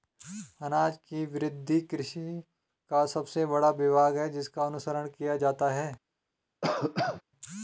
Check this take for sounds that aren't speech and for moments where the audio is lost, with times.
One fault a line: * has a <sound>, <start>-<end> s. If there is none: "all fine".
* has a cough, 6.6-7.2 s